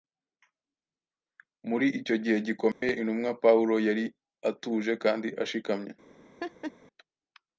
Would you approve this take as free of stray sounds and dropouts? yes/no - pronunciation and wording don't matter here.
no